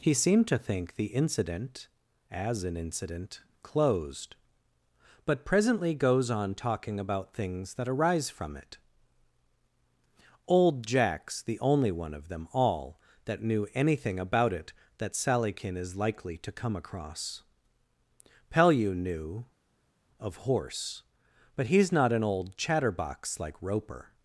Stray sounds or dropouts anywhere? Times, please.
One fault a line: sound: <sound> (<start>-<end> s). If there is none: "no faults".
no faults